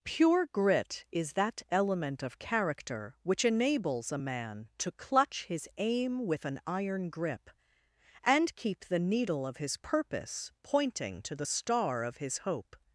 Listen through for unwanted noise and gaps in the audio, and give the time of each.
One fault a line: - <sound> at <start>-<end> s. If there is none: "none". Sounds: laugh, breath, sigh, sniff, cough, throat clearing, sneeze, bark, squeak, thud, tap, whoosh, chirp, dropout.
none